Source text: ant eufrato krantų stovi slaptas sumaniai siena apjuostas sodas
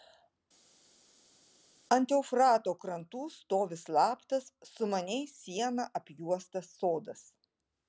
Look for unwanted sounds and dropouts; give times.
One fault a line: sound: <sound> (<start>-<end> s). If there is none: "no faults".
no faults